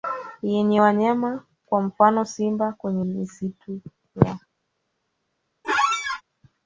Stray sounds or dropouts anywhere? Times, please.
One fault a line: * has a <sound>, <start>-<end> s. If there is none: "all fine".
* has a squeak, 5.6-6.2 s